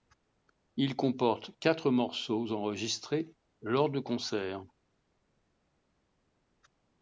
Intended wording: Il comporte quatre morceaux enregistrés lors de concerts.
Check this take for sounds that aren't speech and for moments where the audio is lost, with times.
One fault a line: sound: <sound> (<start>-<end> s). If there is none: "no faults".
no faults